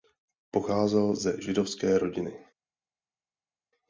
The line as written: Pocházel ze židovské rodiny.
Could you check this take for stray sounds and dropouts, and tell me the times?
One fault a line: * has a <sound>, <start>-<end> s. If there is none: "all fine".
all fine